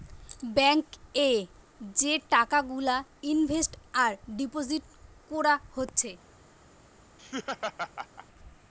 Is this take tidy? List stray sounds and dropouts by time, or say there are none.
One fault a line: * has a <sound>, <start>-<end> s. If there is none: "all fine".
* has a laugh, 7.2-8.3 s